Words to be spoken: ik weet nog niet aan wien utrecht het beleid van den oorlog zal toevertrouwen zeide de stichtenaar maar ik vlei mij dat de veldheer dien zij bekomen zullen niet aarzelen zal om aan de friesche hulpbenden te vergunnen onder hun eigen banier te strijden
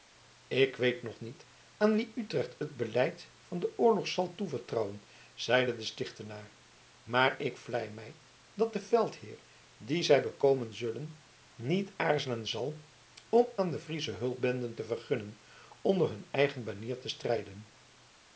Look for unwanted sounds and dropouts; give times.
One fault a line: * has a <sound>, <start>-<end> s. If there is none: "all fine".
all fine